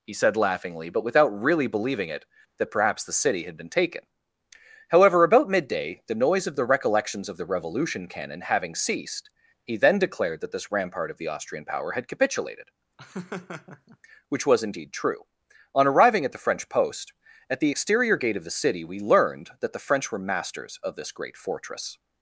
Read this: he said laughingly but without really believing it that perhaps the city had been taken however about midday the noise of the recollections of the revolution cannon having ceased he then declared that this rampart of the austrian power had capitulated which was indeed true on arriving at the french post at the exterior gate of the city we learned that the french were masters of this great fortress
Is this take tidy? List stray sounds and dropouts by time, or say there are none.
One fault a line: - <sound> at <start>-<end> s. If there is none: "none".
- laugh at 13.0-14.0 s